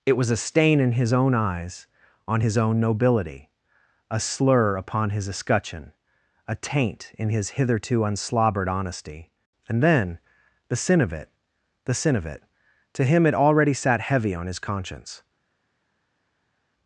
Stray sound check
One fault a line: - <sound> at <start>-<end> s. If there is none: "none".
none